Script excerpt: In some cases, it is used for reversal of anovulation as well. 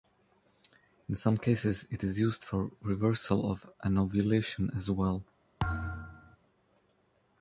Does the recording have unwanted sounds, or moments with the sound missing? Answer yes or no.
yes